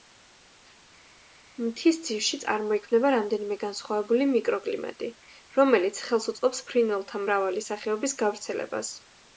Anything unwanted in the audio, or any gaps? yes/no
no